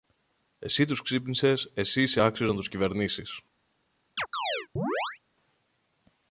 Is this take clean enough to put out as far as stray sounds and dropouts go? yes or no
no